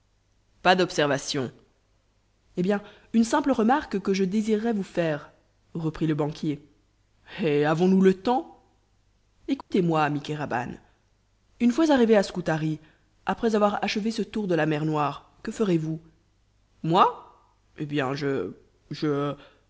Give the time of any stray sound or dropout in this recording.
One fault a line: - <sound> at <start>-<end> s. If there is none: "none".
- dropout at 9.6-9.7 s